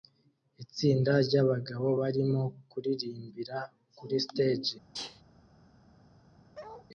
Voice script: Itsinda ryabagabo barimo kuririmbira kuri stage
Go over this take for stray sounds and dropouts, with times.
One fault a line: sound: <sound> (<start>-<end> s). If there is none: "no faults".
sound: sneeze (4.9-5.2 s)
sound: bark (6.5-6.9 s)